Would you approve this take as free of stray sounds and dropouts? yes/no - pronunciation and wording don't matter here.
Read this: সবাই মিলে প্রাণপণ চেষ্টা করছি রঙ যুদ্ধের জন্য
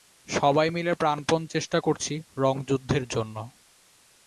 yes